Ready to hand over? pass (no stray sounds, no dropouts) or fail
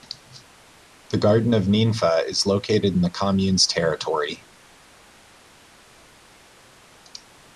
pass